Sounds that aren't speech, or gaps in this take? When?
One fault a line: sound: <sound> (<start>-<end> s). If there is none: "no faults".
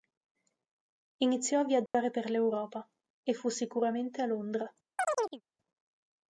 sound: dropout (1.9-1.9 s)
sound: chirp (5.0-5.4 s)